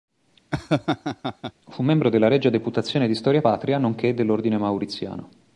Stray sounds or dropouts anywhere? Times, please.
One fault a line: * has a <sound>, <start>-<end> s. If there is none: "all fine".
* has a laugh, 0.5-1.5 s